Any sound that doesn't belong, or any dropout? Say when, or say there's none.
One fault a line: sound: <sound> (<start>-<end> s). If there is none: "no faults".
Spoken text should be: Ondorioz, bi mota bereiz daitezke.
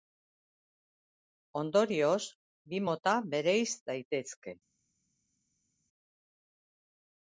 no faults